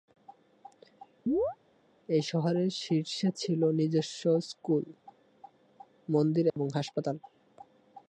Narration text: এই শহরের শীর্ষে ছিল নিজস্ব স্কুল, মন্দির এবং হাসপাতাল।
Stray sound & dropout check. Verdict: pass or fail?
fail